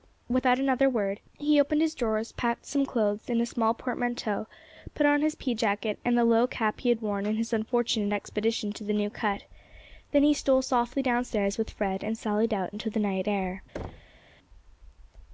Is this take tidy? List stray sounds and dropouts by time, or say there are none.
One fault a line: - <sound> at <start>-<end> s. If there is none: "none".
- thud at 13.7-14.2 s